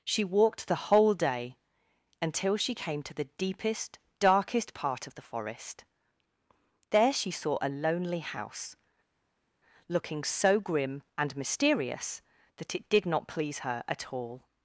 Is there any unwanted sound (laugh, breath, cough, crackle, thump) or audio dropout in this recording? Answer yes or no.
no